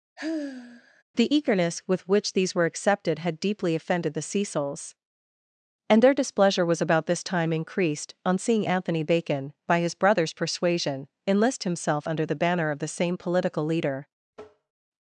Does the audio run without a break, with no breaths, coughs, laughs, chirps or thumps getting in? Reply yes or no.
no